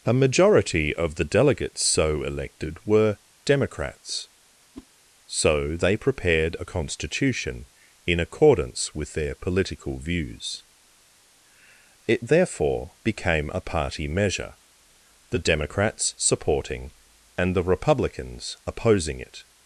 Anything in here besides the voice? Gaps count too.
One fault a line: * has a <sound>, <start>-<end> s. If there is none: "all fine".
* has a whoosh, 4.7-4.9 s